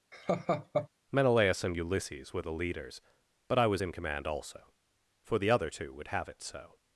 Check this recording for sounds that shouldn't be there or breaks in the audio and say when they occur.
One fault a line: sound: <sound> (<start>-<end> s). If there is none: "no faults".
sound: laugh (0.1-0.9 s)